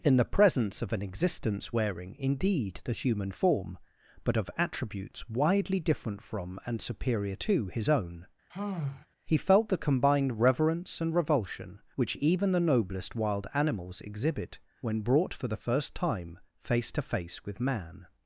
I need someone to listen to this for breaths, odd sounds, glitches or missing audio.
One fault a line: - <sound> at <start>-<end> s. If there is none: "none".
- sigh at 8.5-9.1 s